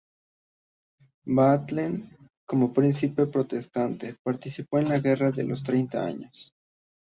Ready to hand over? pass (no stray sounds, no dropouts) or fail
pass